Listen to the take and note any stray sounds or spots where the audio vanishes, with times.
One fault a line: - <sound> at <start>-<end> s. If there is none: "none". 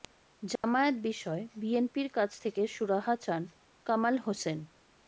- dropout at 0.6-0.6 s